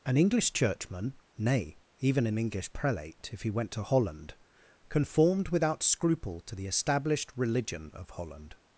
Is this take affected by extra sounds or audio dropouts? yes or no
no